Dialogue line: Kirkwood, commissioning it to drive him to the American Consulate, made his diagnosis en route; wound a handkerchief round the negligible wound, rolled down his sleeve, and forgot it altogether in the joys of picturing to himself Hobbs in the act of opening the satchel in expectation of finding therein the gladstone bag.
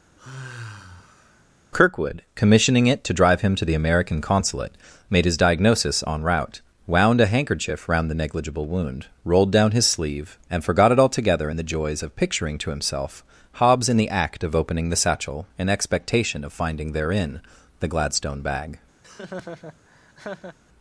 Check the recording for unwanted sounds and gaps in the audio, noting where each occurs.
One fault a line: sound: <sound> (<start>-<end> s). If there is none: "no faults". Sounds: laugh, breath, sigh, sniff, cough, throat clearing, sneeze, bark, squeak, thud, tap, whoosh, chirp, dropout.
sound: sigh (0.2-1.4 s)
sound: laugh (19.0-20.6 s)